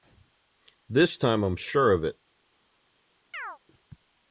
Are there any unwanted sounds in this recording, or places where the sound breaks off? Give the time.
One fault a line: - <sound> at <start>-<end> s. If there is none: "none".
- chirp at 3.3-3.6 s